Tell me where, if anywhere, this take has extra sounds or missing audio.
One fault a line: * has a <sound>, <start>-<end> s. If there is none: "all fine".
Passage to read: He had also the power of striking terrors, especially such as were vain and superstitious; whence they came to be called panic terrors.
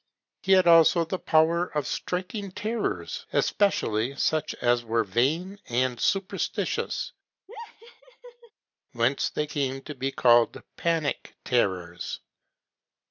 * has a laugh, 7.5-8.5 s